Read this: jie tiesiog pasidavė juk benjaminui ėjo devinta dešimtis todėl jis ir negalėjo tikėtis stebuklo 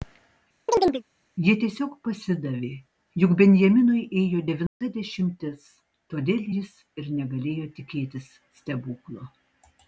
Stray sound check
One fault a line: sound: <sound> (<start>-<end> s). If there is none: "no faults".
sound: chirp (0.7-1.0 s)
sound: dropout (4.7-4.8 s)